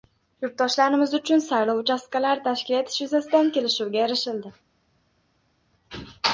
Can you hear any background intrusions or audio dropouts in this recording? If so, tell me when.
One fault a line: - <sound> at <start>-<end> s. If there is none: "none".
none